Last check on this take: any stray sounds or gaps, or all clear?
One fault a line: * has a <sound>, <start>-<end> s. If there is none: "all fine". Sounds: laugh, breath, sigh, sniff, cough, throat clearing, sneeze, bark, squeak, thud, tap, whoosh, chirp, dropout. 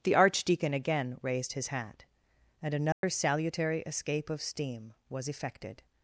* has a dropout, 2.9-3.0 s